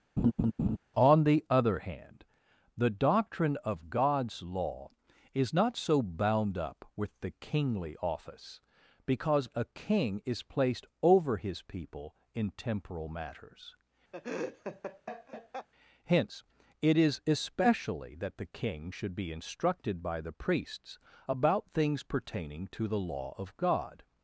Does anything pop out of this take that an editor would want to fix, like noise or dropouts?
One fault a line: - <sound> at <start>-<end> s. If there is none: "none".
- laugh at 0.2-0.8 s
- laugh at 14.1-15.7 s